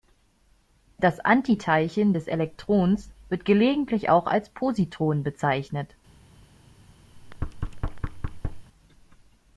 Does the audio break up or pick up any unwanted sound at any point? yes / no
yes